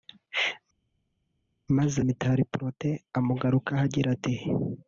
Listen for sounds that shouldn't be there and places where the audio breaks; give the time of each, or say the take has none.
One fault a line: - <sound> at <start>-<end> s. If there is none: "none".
none